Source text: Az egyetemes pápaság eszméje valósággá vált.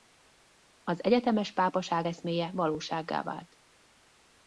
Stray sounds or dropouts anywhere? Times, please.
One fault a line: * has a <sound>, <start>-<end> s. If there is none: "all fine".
all fine